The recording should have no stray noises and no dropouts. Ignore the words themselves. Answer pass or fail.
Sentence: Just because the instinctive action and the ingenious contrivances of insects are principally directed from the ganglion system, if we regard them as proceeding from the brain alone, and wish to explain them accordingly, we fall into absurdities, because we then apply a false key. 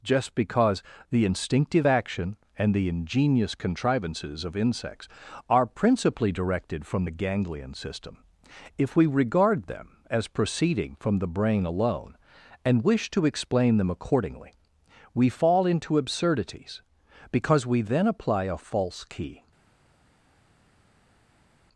pass